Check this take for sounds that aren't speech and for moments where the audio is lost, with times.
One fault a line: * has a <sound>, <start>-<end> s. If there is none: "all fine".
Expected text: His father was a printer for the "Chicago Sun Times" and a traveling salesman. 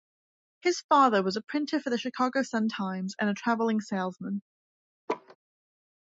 * has a laugh, 5.1-5.4 s